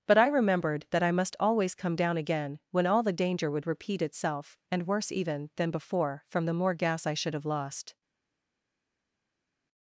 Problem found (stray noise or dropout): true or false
false